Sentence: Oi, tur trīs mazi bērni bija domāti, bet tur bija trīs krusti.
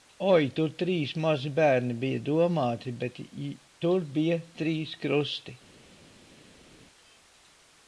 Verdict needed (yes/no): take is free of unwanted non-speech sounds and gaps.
yes